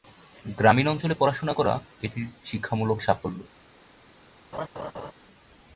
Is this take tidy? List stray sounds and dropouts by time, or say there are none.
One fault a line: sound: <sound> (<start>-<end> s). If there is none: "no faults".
sound: laugh (4.5-5.1 s)